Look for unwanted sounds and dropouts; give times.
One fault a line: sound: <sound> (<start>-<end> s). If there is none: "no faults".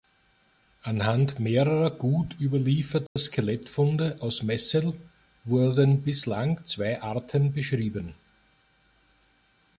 sound: dropout (3.1-3.2 s)